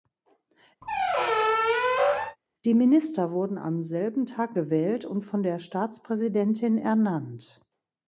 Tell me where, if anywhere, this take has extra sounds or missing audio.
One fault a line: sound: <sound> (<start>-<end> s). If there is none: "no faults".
sound: squeak (0.8-2.4 s)